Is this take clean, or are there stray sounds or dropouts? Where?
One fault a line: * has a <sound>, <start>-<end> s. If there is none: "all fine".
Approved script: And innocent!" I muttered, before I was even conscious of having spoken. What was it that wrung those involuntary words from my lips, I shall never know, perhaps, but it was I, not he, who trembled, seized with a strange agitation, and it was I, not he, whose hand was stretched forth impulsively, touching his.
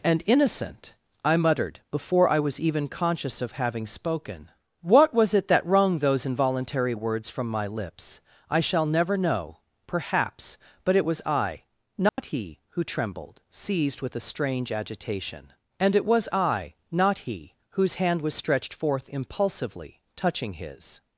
* has a dropout, 12.1-12.2 s